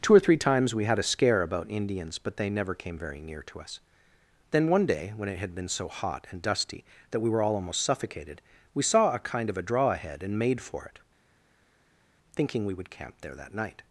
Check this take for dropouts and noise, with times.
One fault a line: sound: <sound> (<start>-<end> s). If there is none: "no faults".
no faults